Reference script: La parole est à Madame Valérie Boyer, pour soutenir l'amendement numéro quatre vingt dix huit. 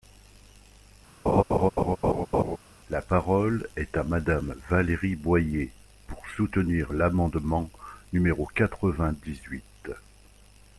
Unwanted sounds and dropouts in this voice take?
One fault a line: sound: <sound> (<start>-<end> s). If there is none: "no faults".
sound: laugh (1.3-2.6 s)